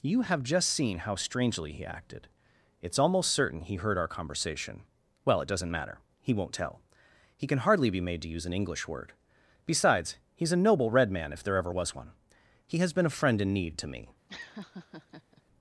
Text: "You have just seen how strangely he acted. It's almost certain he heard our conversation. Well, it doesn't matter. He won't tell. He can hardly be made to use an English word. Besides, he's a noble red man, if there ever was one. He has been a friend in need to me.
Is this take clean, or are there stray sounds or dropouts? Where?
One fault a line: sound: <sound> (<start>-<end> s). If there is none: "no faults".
sound: laugh (14.3-15.4 s)